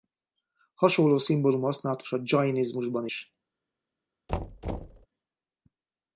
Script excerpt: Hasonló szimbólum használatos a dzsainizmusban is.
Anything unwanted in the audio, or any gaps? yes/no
yes